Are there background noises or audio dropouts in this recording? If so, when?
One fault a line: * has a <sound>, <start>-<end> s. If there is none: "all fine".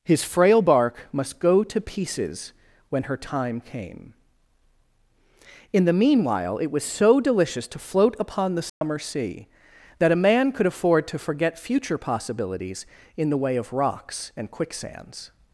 * has a dropout, 8.7-8.8 s